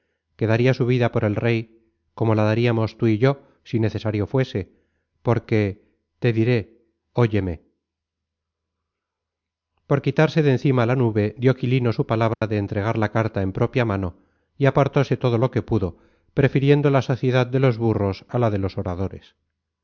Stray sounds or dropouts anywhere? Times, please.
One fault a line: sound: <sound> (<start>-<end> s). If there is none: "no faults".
sound: dropout (12.3-12.4 s)